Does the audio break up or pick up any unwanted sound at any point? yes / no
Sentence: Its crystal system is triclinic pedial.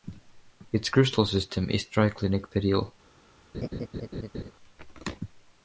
yes